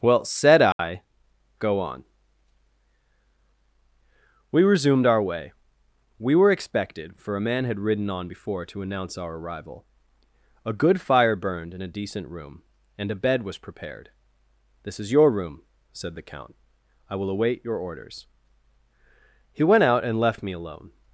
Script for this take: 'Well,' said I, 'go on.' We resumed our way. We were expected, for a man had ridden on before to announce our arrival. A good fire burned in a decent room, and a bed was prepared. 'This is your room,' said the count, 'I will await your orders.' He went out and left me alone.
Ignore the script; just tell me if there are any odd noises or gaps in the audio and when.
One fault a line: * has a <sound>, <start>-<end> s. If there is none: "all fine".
* has a dropout, 0.7-0.8 s